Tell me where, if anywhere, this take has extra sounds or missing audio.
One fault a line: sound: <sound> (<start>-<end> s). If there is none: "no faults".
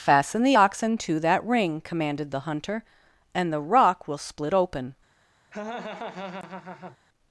sound: laugh (5.5-7.0 s)